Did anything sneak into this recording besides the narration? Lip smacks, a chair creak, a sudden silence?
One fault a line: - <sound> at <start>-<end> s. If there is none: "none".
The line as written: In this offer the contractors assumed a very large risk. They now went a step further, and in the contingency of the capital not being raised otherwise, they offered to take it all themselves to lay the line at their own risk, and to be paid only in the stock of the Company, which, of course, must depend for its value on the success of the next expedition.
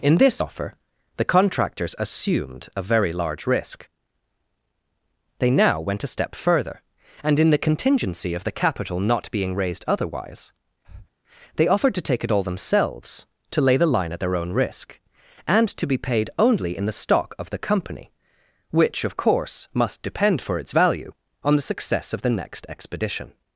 - breath at 10.8-11.1 s